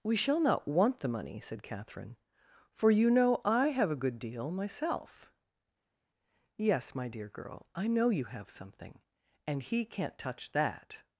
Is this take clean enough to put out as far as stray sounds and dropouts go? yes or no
yes